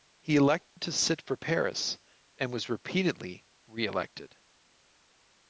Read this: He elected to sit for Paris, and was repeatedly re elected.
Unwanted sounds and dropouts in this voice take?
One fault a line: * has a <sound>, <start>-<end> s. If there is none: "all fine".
* has a dropout, 0.7-0.8 s